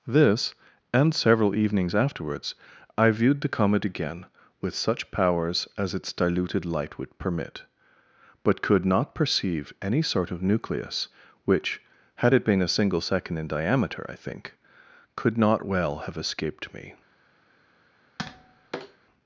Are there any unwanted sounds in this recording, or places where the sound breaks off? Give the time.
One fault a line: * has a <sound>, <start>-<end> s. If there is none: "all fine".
* has a tap, 18.2-19.0 s